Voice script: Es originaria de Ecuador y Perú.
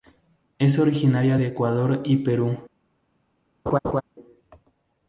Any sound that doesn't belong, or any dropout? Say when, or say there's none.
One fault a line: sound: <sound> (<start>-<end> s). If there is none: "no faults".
sound: laugh (3.7-4.0 s)